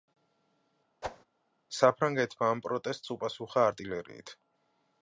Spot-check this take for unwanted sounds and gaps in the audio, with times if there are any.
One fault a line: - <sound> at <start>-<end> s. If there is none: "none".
- whoosh at 1.0-1.2 s